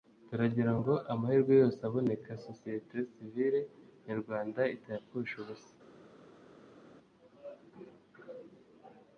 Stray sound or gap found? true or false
false